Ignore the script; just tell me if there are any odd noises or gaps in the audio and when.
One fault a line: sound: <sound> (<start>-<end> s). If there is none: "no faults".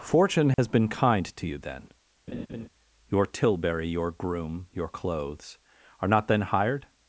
sound: dropout (0.5-0.6 s)
sound: laugh (2.3-2.7 s)